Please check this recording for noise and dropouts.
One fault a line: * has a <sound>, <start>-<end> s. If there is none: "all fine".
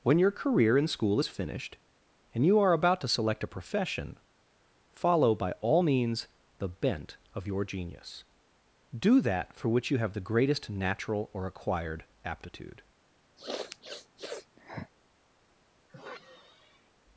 * has a sniff, 13.4-14.9 s
* has a sigh, 15.9-16.9 s